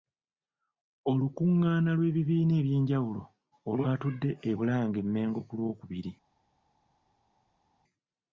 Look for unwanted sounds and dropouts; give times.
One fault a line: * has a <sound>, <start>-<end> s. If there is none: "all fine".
all fine